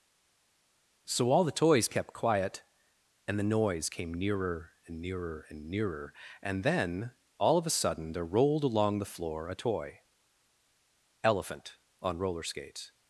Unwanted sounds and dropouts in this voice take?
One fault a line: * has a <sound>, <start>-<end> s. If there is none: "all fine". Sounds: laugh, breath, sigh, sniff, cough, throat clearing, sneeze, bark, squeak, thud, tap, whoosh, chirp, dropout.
all fine